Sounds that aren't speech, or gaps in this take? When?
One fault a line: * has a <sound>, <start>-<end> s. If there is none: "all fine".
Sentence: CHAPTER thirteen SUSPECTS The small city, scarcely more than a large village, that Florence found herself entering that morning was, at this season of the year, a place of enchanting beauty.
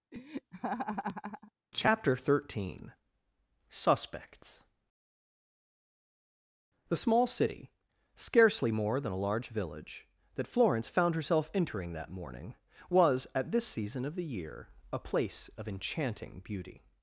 * has a laugh, 0.1-1.5 s